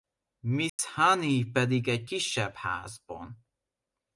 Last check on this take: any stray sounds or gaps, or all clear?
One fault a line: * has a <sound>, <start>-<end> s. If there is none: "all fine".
* has a dropout, 0.7-0.8 s